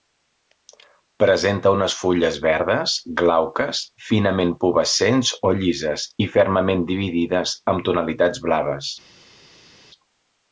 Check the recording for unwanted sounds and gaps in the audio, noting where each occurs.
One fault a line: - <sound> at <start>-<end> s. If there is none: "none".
none